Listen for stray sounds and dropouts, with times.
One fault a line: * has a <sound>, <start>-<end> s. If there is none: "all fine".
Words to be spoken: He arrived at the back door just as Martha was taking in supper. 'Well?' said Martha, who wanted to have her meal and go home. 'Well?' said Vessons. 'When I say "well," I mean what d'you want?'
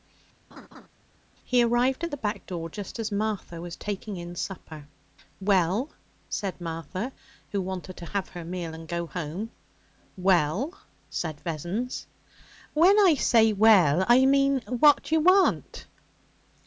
* has a laugh, 0.5-0.9 s